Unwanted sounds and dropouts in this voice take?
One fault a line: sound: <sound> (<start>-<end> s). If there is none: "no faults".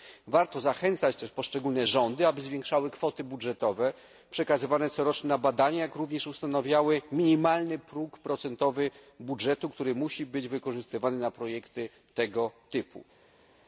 no faults